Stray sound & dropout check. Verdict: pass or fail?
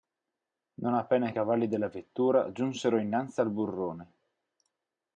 pass